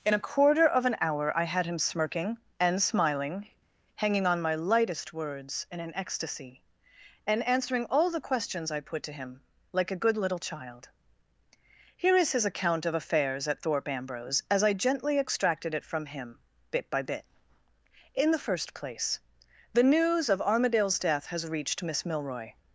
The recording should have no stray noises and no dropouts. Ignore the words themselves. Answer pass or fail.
pass